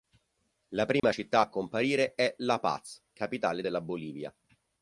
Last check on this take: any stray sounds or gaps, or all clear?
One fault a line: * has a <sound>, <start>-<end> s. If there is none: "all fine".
* has a dropout, 1.0-1.0 s